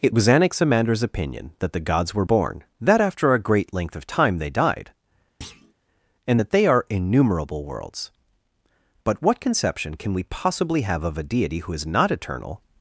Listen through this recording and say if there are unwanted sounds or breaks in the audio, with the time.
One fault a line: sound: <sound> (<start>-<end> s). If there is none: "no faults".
sound: thud (5.4-5.7 s)